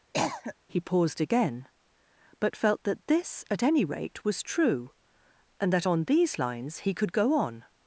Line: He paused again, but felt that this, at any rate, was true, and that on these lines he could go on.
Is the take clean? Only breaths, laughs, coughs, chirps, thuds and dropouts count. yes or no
no